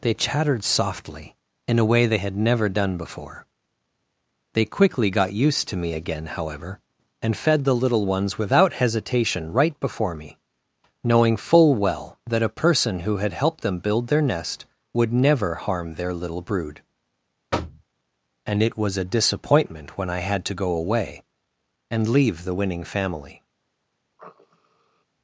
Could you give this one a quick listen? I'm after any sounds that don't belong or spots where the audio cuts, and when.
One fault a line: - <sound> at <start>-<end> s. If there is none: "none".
- thud at 17.5-17.8 s
- sniff at 24.2-25.0 s